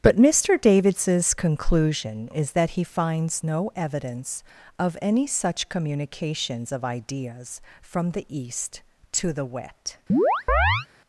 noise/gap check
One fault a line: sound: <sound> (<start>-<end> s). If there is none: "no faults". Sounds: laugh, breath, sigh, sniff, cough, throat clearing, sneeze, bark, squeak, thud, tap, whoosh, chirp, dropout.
sound: chirp (10.1-10.9 s)